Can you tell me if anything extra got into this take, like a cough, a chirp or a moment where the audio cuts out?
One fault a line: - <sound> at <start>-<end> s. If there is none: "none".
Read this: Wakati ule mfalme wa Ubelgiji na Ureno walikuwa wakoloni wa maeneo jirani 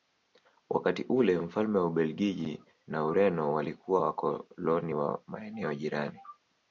none